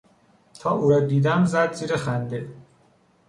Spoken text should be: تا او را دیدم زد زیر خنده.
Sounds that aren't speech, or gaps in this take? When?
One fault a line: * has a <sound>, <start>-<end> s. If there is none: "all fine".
all fine